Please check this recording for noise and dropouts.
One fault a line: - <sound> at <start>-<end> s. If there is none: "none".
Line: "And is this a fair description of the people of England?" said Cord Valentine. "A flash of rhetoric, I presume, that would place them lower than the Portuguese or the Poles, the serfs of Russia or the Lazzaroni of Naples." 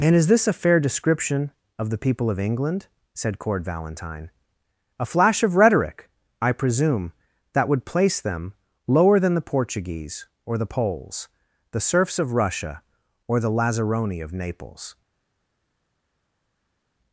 none